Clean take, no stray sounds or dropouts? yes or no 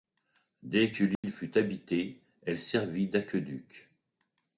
no